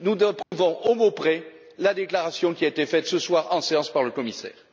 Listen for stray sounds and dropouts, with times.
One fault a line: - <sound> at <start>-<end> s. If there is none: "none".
- dropout at 0.4-0.5 s